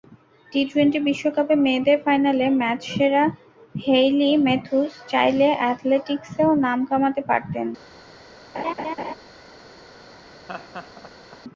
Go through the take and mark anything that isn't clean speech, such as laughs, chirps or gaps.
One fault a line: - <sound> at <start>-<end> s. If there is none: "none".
- laugh at 8.5-9.1 s
- laugh at 10.5-11.4 s